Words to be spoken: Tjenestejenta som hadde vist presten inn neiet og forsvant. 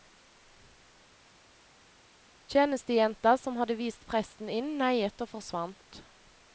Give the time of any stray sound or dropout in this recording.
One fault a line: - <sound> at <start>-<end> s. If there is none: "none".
none